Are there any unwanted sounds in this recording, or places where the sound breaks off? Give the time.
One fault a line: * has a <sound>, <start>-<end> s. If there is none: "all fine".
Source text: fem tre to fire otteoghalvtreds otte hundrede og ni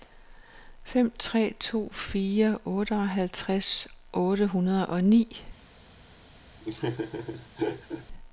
* has a laugh, 6.6-8.1 s